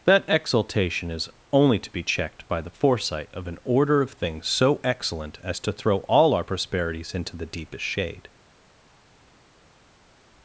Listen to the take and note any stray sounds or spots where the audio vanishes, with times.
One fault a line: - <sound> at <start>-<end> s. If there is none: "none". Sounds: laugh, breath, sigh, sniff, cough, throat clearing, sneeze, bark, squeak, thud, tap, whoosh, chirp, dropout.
none